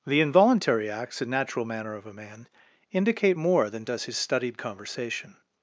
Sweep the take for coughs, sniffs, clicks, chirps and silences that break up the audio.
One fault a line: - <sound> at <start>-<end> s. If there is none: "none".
none